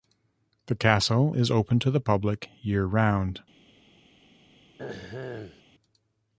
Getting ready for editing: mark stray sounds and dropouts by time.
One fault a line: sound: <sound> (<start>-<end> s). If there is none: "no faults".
sound: throat clearing (4.8-5.6 s)